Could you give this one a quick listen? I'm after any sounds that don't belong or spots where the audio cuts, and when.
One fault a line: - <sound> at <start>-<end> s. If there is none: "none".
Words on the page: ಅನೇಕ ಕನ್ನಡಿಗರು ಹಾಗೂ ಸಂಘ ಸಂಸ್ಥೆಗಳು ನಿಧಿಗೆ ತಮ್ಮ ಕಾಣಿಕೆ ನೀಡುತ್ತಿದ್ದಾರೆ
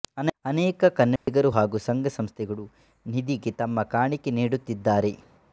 - dropout at 1.2-1.3 s